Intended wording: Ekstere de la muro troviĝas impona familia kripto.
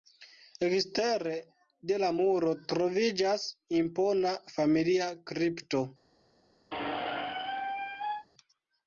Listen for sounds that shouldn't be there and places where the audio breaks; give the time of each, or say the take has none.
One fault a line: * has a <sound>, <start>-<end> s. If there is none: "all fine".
* has a squeak, 6.7-8.3 s